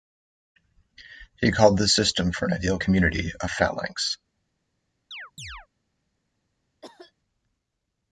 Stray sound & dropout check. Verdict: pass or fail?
fail